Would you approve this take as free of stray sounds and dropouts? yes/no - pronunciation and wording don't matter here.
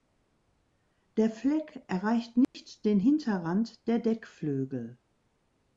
no